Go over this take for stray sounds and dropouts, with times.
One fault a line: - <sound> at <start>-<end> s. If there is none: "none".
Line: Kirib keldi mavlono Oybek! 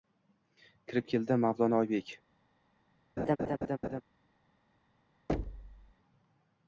- laugh at 3.2-4.0 s
- thud at 5.3-5.9 s